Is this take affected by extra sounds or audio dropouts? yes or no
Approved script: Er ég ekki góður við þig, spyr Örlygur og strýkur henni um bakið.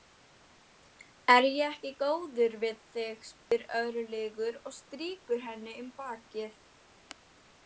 yes